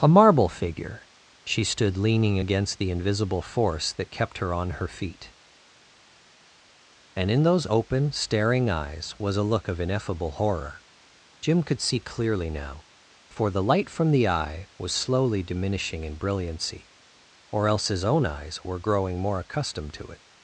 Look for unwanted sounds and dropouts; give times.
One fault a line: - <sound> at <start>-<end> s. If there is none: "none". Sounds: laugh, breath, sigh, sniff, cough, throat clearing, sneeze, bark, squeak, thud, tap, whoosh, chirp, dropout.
none